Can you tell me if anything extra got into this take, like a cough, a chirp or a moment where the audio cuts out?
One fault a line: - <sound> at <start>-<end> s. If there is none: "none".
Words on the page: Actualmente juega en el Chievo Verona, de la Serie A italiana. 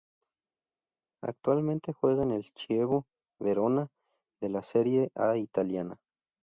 none